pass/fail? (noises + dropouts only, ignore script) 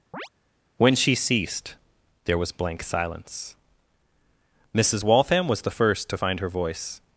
fail